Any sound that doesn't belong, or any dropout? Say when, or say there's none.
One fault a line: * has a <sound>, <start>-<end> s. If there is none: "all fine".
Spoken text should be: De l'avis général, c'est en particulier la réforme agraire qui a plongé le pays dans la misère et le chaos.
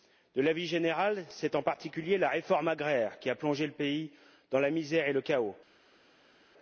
all fine